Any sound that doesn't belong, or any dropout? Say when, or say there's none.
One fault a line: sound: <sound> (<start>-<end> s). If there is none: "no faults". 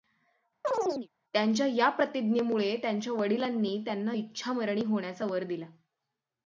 sound: chirp (0.6-1.1 s)